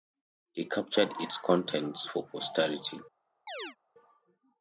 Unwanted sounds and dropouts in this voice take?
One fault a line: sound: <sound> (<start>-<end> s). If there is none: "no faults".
sound: chirp (3.5-3.8 s)